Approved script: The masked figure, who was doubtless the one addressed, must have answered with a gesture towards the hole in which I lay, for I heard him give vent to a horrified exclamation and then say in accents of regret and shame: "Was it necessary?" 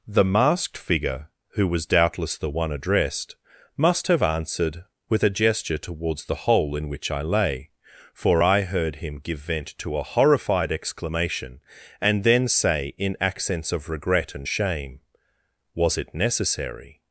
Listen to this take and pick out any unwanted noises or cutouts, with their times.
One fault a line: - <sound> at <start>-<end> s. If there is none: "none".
none